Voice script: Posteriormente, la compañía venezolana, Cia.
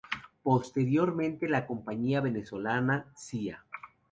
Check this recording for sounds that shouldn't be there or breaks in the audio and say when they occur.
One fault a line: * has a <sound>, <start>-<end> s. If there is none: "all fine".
all fine